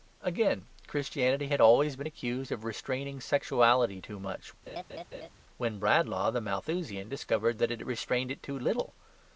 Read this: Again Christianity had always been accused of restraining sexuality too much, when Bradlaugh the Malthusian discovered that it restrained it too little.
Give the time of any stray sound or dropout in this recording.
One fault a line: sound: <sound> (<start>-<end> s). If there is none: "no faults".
sound: laugh (4.7-5.3 s)